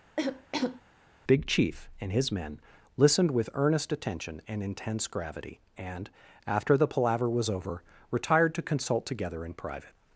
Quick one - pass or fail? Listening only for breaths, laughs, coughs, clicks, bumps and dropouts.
fail